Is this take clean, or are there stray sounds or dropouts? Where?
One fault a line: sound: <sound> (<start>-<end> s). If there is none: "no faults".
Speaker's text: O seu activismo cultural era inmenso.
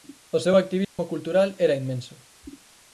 sound: dropout (0.8-1.0 s)